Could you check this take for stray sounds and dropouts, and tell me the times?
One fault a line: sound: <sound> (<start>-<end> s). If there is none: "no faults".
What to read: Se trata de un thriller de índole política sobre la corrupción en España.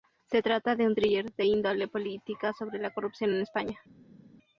no faults